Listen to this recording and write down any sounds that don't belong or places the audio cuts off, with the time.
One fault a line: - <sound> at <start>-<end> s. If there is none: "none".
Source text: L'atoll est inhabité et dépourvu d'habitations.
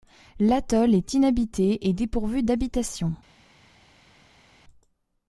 none